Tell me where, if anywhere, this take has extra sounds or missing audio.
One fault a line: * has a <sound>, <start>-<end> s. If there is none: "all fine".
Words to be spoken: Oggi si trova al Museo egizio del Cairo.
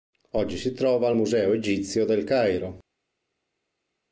all fine